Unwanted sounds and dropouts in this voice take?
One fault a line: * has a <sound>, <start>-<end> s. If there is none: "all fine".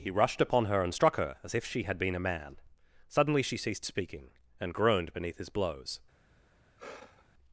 * has a sigh, 6.8-7.3 s